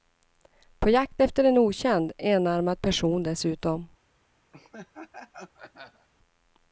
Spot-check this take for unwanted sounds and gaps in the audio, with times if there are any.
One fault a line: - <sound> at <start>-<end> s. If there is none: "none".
- laugh at 4.5-6.1 s